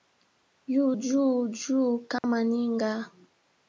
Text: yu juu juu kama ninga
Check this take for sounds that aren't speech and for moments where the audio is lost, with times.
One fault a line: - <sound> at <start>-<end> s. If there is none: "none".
- dropout at 2.2-2.2 s